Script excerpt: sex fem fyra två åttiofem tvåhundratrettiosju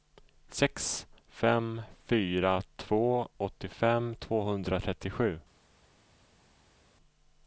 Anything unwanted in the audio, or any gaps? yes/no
no